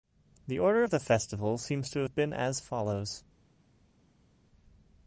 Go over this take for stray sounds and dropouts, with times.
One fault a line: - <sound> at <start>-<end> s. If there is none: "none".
none